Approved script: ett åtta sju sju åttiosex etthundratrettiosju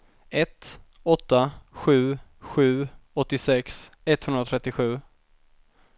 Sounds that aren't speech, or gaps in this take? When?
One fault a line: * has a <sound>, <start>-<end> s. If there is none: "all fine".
all fine